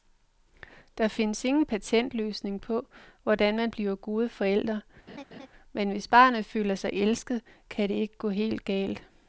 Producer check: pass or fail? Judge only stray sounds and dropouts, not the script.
fail